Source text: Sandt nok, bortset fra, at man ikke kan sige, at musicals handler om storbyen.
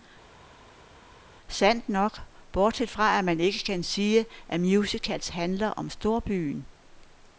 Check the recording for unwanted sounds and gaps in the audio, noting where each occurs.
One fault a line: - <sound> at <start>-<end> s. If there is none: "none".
none